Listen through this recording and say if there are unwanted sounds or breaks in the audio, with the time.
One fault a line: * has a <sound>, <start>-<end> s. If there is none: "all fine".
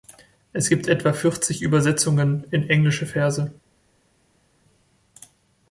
all fine